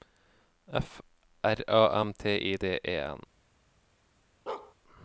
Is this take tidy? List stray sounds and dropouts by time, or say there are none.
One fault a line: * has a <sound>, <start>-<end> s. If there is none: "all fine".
* has a bark, 4.5-4.7 s